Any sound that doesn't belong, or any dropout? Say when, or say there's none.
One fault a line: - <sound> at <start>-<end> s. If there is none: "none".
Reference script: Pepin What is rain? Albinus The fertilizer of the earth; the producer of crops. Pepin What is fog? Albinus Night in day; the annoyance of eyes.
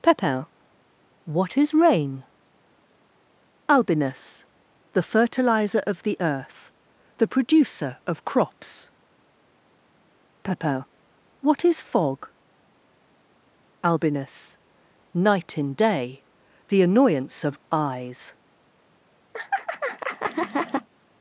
- laugh at 19.3-20.9 s